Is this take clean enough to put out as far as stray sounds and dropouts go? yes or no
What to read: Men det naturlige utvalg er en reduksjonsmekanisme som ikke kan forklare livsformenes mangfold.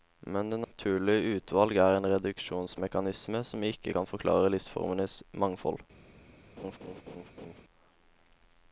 no